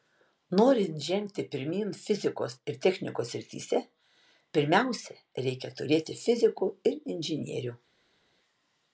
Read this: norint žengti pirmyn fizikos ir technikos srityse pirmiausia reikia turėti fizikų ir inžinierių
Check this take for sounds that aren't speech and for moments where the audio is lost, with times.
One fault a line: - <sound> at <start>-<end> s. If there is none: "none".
none